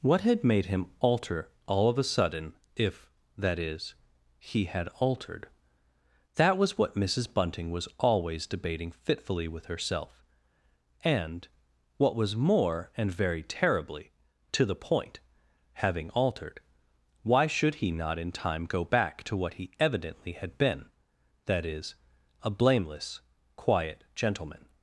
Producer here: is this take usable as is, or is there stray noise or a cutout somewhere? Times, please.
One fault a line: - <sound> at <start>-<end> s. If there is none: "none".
none